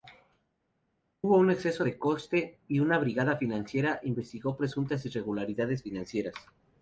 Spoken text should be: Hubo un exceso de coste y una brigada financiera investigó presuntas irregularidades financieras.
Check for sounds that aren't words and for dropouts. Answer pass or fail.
pass